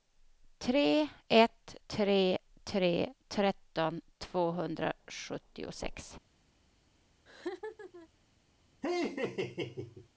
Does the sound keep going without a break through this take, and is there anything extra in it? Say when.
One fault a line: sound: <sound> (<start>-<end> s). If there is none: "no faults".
sound: laugh (7.3-8.1 s)
sound: laugh (8.8-10.1 s)